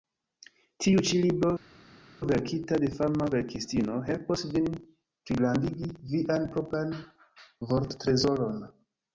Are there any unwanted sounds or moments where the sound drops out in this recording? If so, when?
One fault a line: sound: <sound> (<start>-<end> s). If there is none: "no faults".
no faults